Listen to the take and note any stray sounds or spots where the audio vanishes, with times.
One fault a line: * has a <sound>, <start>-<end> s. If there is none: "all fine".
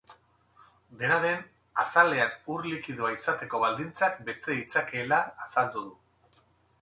all fine